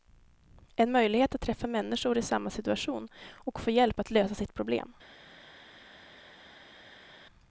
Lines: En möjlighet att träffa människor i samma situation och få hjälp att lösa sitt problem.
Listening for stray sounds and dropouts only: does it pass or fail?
pass